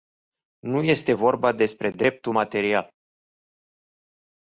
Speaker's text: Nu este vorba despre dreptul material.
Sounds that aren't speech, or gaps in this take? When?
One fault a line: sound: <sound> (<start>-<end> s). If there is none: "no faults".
no faults